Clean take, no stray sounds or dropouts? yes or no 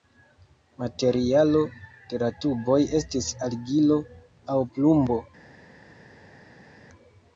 yes